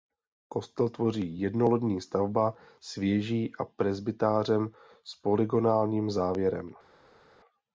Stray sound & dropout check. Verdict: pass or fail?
pass